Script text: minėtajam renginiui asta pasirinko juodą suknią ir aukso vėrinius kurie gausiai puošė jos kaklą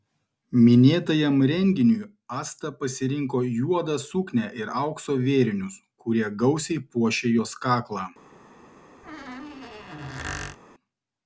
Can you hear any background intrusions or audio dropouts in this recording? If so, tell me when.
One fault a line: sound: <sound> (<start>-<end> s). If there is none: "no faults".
sound: squeak (9.0-10.6 s)